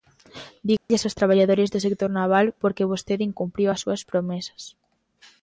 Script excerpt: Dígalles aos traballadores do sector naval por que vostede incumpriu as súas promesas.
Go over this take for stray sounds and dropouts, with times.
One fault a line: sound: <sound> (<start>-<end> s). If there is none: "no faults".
sound: dropout (0.8-0.9 s)